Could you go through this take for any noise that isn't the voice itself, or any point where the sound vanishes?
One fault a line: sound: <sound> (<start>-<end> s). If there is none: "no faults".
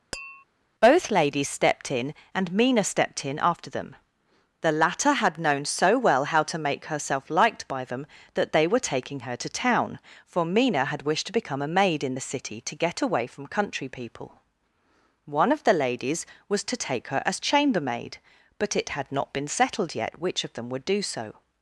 sound: tap (0.1-0.4 s)